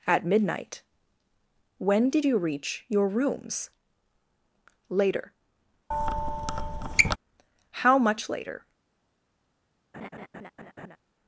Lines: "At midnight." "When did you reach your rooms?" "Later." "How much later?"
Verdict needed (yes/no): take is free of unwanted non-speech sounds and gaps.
no